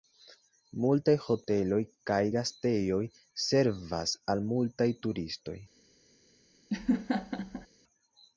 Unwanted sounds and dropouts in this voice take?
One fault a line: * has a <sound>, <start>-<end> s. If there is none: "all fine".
* has a laugh, 6.7-7.7 s